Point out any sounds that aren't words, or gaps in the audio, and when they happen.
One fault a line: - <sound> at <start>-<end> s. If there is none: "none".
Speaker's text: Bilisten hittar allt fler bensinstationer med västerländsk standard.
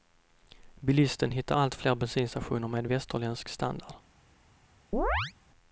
- chirp at 4.9-5.3 s